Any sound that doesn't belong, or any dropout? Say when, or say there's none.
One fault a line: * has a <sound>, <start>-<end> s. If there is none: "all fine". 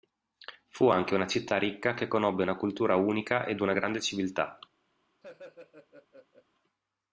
* has a laugh, 5.2-6.5 s